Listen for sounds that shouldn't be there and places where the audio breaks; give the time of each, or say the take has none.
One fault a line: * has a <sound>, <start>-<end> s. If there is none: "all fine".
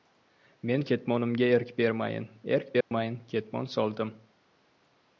* has a dropout, 2.8-2.9 s